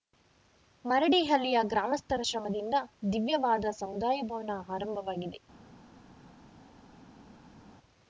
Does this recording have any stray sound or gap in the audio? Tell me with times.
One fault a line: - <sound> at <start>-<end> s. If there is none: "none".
none